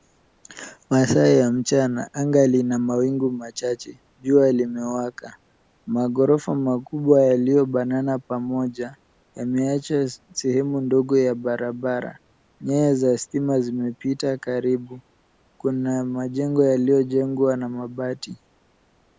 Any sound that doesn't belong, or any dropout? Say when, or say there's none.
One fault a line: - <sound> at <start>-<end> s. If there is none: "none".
none